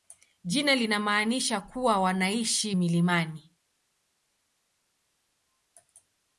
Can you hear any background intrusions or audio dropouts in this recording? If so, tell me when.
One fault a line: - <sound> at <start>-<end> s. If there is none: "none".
none